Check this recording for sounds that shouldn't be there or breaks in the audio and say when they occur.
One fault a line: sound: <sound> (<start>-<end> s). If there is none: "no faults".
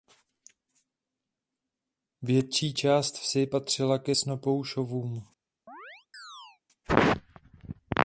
sound: chirp (5.7-6.6 s)